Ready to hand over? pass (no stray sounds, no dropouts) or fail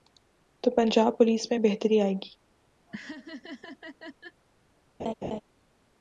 fail